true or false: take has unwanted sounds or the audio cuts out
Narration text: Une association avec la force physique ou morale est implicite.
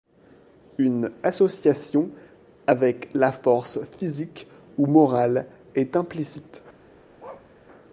true